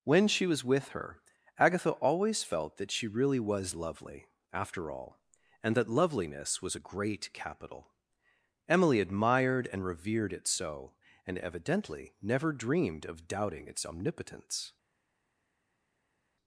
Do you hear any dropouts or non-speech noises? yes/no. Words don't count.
no